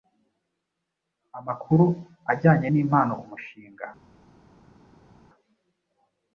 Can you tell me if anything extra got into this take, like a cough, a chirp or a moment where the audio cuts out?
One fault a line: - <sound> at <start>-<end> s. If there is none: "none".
none